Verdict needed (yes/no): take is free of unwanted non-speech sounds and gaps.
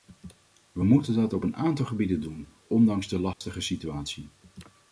no